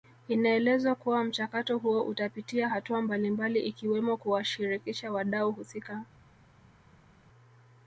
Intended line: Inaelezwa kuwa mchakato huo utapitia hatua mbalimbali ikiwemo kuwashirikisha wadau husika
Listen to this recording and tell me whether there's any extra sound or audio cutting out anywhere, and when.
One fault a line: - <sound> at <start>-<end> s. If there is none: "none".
none